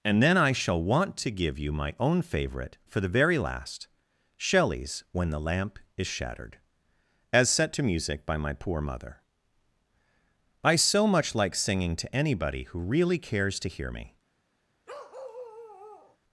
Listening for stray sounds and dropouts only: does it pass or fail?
fail